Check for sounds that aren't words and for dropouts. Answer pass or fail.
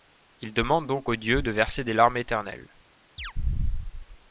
fail